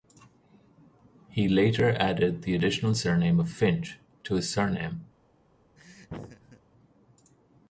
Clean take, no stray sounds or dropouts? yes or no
no